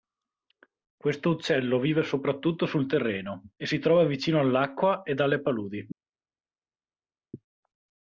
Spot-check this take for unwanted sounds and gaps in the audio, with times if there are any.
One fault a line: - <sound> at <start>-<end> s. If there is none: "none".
none